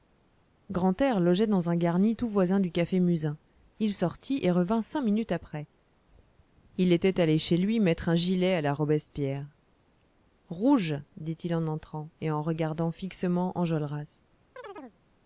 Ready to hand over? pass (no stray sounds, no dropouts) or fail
fail